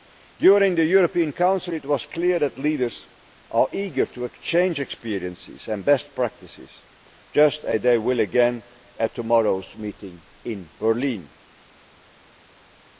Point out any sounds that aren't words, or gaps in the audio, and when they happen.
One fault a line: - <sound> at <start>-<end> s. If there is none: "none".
none